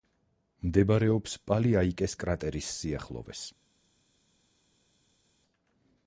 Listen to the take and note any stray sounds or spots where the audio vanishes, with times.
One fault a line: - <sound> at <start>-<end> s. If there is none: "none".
none